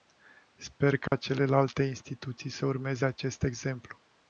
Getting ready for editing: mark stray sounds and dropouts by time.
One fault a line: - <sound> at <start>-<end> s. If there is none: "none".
- dropout at 1.1-1.1 s